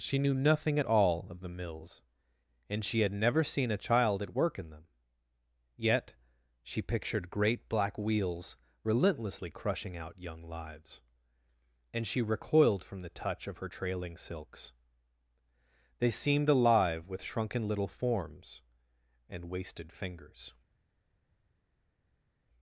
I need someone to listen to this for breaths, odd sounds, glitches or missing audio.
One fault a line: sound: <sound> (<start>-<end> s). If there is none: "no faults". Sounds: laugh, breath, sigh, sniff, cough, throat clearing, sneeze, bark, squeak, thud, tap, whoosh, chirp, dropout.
no faults